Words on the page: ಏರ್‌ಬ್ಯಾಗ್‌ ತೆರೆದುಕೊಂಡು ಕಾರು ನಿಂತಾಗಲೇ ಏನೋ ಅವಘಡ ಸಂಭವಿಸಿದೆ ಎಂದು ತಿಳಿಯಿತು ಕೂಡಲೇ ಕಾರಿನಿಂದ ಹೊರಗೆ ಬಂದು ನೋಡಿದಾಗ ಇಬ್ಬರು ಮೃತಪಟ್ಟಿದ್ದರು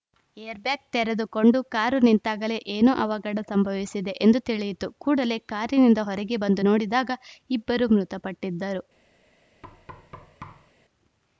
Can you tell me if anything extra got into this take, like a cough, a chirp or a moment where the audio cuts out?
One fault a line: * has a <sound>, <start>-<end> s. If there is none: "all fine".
* has a thud, 9.6-10.7 s